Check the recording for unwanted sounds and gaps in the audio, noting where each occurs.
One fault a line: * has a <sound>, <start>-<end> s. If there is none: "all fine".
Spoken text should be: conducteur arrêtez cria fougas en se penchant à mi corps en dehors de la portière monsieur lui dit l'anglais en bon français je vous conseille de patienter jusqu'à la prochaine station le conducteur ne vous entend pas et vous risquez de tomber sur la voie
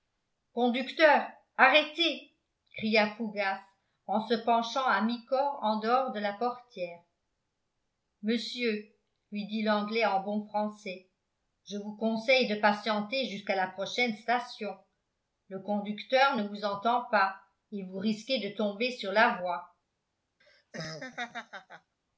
* has a laugh, 20.4-21.9 s